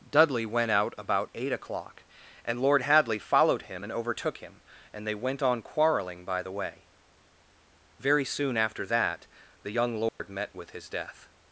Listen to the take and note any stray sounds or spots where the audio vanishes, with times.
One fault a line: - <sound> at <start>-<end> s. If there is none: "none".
- dropout at 10.1-10.2 s